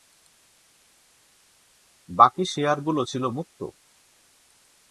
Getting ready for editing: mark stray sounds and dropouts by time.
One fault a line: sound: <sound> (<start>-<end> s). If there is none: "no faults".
no faults